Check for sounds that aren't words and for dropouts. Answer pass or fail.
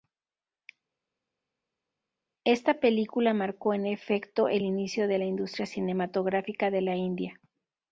pass